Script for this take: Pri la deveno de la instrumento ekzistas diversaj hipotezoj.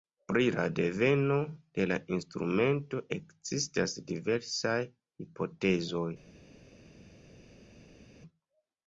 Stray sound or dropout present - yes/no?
no